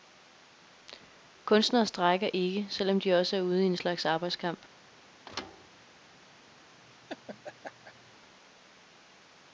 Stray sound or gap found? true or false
true